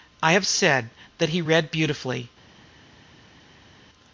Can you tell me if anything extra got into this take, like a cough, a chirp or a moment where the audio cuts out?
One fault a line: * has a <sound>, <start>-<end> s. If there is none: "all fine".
all fine